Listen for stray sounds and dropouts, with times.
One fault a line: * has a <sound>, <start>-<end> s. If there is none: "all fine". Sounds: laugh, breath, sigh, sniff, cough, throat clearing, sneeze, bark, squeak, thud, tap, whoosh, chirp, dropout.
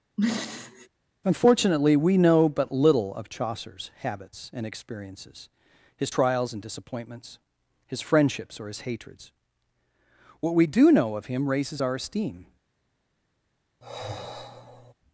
* has a throat clearing, 0.2-0.9 s
* has a sigh, 13.8-14.9 s